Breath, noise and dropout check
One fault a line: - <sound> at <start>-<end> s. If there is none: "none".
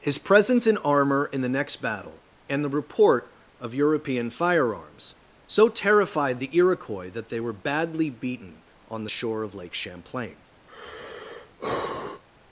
- sigh at 10.7-12.2 s